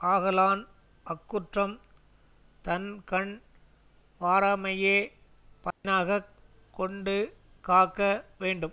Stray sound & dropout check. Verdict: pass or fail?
fail